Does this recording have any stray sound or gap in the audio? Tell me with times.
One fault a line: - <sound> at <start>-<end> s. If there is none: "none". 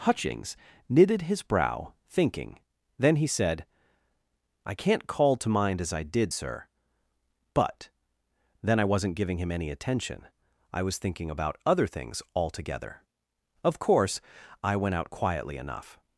none